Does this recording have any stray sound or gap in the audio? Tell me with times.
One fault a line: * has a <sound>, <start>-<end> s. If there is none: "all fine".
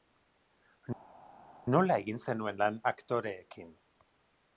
all fine